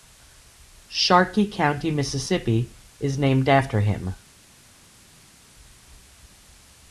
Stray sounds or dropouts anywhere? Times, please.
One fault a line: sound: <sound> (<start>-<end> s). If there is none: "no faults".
no faults